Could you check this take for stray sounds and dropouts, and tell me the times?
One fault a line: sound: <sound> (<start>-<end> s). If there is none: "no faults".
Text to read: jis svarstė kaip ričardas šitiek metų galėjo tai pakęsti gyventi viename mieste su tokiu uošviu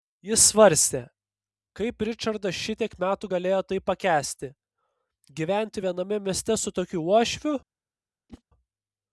sound: whoosh (8.3-8.4 s)